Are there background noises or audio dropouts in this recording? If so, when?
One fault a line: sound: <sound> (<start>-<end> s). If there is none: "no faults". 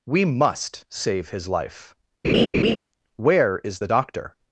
sound: laugh (2.2-2.8 s)